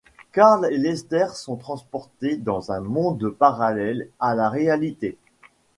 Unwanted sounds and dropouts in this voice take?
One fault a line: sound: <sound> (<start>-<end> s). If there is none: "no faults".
no faults